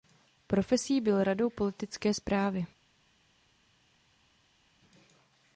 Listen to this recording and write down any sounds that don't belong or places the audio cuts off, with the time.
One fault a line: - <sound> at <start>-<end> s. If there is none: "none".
none